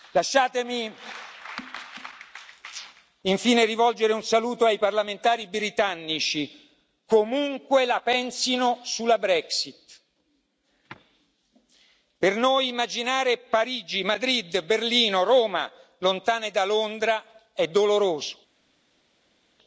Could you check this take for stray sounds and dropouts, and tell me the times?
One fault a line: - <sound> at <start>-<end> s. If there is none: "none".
none